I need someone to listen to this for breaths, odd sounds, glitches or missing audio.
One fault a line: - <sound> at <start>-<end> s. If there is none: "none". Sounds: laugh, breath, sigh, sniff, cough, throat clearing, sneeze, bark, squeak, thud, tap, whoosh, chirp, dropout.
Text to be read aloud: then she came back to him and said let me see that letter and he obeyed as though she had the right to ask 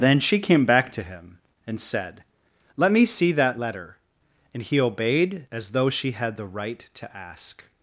none